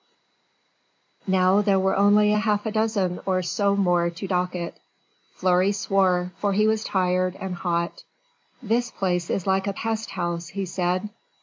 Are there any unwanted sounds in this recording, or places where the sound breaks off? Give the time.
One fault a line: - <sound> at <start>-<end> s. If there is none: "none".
none